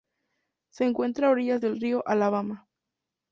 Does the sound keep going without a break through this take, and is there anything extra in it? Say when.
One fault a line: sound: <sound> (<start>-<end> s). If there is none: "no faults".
no faults